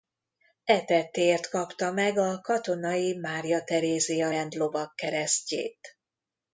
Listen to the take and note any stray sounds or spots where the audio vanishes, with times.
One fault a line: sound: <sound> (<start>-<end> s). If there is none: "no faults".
no faults